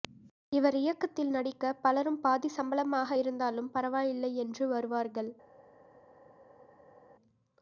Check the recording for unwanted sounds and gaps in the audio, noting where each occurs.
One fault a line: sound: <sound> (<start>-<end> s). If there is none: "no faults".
no faults